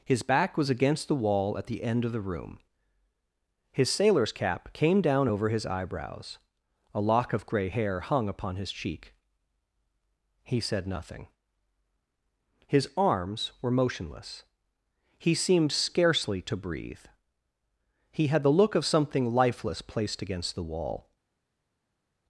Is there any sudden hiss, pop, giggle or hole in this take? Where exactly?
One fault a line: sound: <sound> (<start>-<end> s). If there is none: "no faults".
no faults